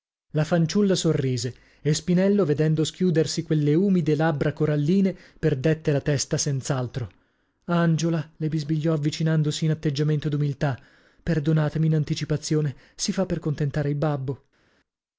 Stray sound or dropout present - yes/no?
no